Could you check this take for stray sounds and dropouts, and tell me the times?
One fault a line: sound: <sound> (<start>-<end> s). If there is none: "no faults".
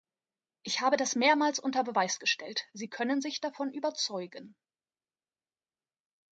no faults